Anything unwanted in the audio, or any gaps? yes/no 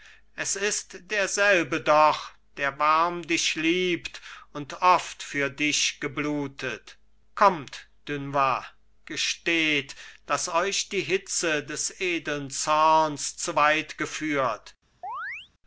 yes